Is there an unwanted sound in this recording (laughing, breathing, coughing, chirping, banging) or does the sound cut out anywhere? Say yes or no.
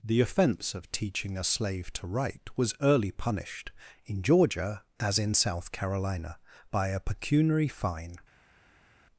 no